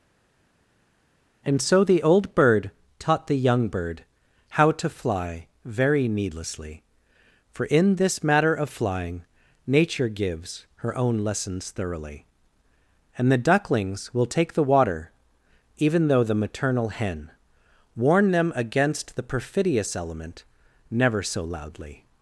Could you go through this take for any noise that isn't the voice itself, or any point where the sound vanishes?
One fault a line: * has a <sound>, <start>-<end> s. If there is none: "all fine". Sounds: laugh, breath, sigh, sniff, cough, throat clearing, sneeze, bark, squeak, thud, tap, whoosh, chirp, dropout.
all fine